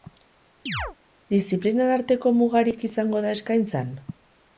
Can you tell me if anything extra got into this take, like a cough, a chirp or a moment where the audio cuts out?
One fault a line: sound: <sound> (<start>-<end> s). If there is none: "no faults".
sound: chirp (0.7-1.0 s)